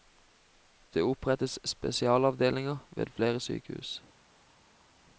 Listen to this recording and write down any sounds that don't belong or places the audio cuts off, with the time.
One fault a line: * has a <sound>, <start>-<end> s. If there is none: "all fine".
all fine